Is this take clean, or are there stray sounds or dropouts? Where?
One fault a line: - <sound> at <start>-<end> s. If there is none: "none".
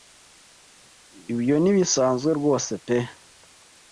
none